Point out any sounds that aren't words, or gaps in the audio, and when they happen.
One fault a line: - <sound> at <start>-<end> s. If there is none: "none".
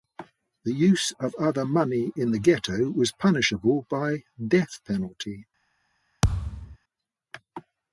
- thud at 6.2-6.8 s